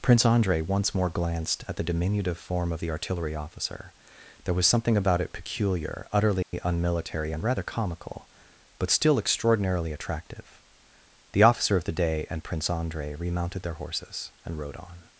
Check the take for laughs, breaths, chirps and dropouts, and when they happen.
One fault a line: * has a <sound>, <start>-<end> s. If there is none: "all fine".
* has a dropout, 6.4-6.5 s